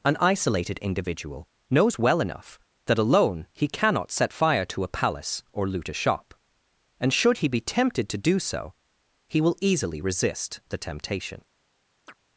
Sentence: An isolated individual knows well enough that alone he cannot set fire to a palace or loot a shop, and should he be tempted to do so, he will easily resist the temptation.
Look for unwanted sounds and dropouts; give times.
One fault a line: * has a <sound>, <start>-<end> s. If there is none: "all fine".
* has a chirp, 12.1-12.2 s